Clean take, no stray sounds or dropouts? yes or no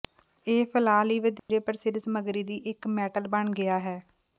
no